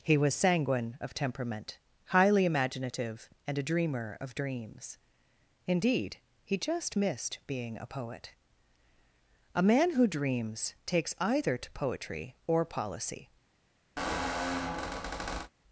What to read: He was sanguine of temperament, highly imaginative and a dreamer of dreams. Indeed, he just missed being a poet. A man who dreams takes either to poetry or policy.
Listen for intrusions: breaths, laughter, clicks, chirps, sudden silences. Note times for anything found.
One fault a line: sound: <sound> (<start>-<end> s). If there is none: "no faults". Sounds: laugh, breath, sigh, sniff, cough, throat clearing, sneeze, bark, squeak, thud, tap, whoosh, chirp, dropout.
sound: squeak (14.0-15.5 s)